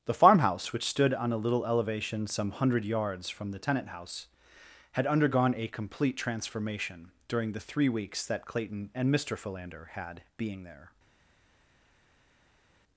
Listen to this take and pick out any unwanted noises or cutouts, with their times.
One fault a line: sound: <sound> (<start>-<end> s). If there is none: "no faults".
no faults